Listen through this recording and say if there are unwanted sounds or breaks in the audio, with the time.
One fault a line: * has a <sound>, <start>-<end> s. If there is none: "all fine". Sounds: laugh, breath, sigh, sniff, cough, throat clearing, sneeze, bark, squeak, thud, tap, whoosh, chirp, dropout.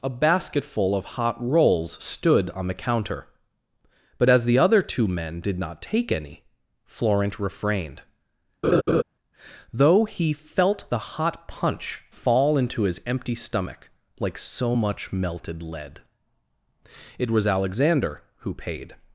* has a laugh, 8.6-9.0 s